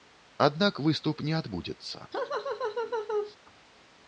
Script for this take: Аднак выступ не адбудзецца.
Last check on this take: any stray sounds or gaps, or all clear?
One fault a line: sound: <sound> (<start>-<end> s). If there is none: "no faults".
sound: laugh (2.1-3.4 s)